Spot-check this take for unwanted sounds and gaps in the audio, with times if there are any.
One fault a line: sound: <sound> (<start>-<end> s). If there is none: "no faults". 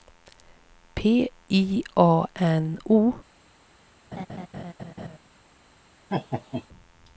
sound: laugh (4.1-5.2 s)
sound: laugh (6.1-6.7 s)